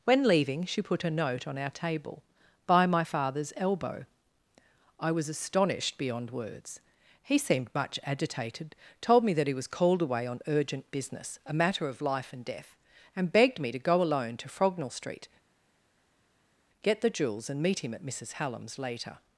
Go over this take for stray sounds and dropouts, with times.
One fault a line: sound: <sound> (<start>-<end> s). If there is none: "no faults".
no faults